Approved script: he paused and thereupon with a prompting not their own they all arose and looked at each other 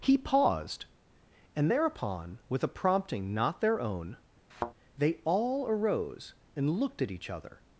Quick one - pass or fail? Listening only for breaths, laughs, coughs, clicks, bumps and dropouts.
fail